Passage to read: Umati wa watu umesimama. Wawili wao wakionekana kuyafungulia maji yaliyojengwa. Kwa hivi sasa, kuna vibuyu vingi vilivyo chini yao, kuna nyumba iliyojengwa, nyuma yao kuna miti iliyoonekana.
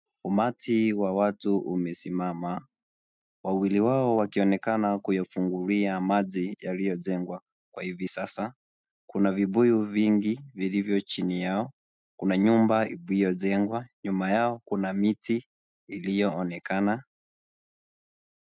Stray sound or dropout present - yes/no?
no